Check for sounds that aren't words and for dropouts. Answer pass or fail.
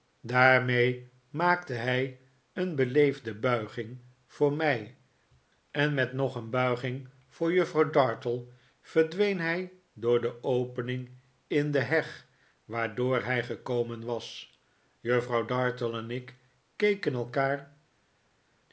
pass